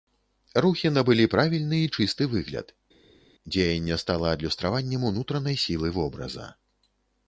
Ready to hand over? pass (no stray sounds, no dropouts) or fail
pass